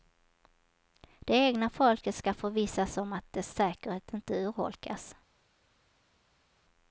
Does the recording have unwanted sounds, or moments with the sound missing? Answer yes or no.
no